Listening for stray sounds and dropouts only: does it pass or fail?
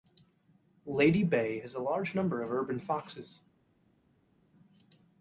pass